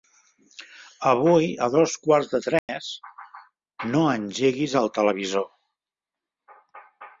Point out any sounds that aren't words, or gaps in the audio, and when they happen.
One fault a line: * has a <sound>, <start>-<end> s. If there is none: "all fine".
* has a dropout, 2.6-2.7 s